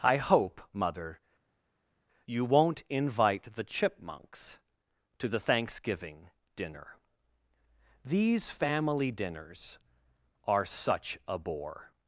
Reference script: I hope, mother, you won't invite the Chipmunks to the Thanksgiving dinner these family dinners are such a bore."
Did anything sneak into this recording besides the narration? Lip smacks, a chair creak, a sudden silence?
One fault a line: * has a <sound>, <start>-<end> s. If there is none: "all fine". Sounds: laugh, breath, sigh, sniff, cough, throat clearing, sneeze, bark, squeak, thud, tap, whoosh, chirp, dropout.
all fine